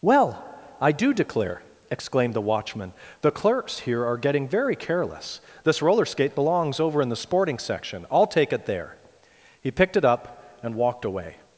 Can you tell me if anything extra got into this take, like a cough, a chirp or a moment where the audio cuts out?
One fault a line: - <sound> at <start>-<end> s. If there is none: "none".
none